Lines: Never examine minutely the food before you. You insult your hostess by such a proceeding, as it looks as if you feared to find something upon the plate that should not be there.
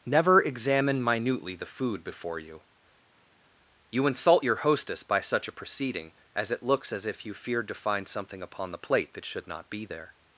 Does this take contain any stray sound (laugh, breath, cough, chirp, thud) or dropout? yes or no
no